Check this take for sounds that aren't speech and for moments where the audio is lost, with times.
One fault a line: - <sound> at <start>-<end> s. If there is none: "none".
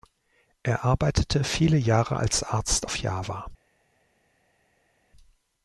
none